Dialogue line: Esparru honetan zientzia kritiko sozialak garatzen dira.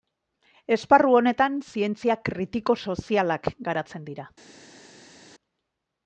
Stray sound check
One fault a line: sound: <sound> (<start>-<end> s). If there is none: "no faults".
no faults